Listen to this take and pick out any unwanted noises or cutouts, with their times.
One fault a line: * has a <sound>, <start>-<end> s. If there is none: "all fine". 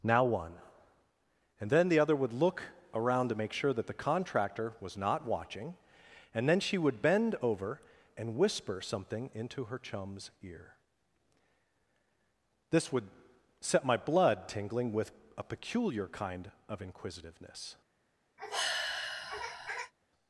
* has a sigh, 18.4-19.9 s